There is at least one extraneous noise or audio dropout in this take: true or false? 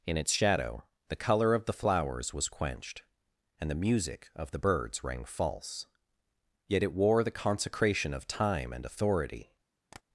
true